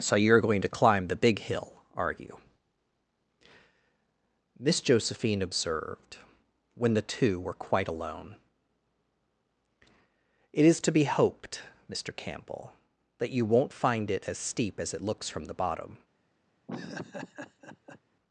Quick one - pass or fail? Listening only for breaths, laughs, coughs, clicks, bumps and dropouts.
fail